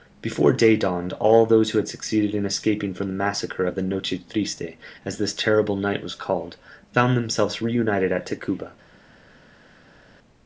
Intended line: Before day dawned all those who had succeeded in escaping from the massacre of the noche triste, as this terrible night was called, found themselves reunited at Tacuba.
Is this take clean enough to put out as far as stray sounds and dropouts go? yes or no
yes